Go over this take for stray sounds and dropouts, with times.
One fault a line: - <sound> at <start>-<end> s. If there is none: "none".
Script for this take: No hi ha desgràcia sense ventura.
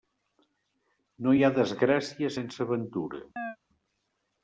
- chirp at 3.4-3.6 s